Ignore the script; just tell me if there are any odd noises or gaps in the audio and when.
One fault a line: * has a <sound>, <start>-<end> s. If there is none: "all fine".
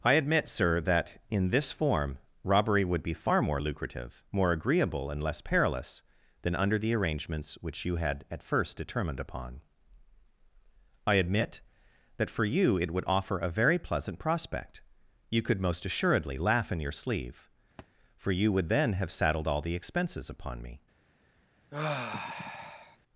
* has a thud, 17.8-17.9 s
* has a sigh, 21.7-23.0 s